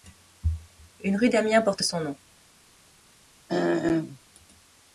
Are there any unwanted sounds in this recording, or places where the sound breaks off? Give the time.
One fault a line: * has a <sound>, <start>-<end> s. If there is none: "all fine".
* has a throat clearing, 3.5-4.2 s